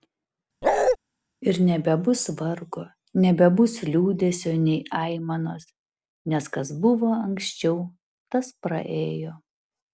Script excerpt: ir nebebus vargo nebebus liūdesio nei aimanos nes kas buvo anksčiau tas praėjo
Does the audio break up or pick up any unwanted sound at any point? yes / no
yes